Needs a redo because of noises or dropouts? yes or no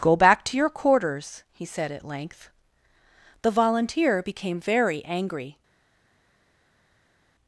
no